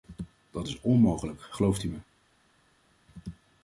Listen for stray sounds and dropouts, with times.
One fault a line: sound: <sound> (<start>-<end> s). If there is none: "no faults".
no faults